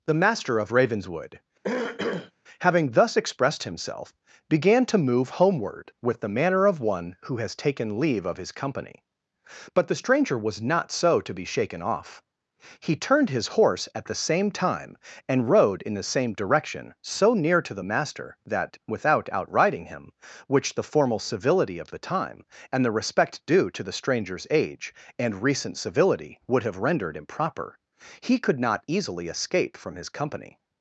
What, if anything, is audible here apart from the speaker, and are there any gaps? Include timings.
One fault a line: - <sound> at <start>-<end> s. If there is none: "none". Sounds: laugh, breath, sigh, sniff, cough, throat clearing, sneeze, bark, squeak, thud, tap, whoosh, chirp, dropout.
- throat clearing at 1.6-2.3 s